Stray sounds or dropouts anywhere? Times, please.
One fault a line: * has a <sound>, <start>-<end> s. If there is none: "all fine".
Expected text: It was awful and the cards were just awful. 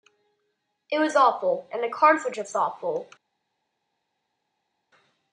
all fine